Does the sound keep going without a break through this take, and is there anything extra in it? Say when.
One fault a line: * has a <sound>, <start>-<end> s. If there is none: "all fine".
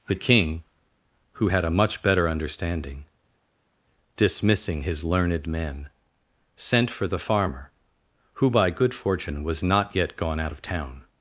all fine